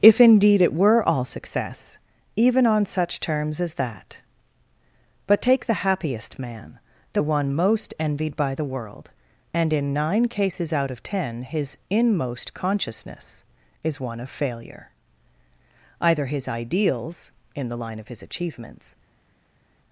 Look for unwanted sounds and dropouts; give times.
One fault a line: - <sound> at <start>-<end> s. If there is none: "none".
none